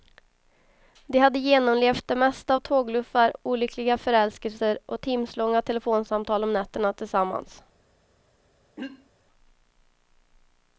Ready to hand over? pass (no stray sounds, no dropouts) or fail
fail